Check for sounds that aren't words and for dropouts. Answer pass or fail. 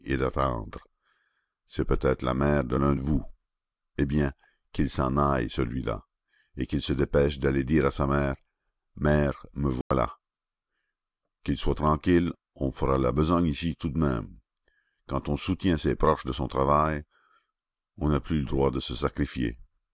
fail